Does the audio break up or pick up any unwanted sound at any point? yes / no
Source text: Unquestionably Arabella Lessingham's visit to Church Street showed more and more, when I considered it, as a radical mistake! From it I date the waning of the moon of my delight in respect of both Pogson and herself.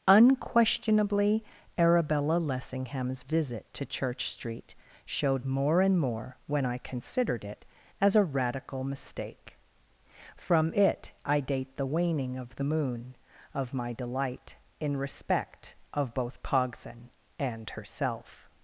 no